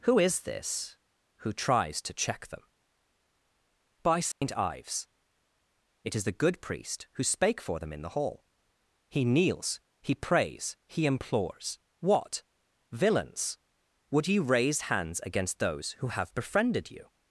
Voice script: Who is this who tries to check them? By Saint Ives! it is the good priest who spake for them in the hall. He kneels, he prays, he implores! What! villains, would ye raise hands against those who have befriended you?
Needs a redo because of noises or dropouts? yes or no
yes